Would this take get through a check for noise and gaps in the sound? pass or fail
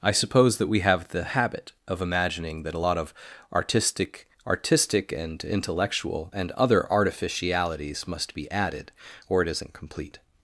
pass